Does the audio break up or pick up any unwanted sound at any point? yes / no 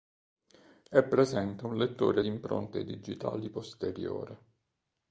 no